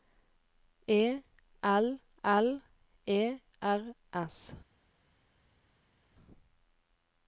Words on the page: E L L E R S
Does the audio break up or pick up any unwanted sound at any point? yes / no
no